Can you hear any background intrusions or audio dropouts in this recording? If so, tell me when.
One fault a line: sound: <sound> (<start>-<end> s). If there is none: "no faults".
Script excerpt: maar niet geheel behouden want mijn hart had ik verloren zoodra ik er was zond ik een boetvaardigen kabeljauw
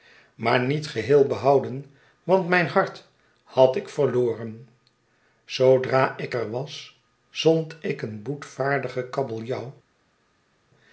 no faults